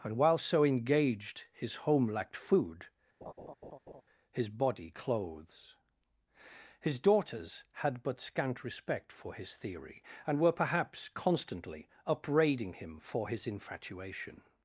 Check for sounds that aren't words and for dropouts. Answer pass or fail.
fail